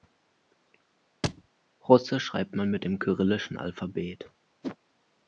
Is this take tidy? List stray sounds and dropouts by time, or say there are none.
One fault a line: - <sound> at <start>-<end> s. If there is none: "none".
- thud at 1.2-1.5 s
- whoosh at 4.6-4.8 s